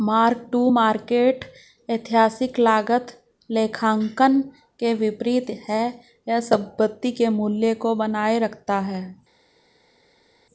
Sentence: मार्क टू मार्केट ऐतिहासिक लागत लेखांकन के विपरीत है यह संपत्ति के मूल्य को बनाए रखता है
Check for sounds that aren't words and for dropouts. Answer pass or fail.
pass